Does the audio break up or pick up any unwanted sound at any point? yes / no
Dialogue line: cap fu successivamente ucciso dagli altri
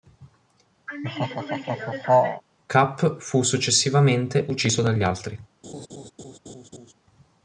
yes